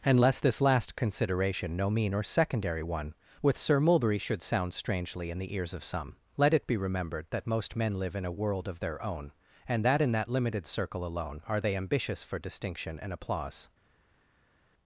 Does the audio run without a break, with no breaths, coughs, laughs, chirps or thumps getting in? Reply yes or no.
yes